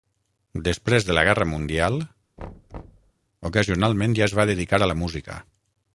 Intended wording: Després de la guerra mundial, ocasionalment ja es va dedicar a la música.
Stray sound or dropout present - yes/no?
yes